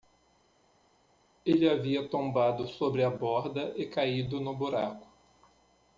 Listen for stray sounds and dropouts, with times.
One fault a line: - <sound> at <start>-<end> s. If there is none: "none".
none